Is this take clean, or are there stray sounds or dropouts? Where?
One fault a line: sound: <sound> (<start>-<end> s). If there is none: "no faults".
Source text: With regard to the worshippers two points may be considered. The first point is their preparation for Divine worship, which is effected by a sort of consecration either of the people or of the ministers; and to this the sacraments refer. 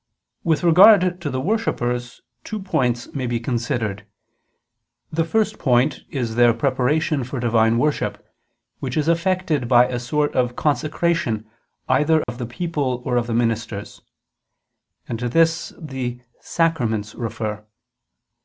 sound: dropout (12.2-12.3 s)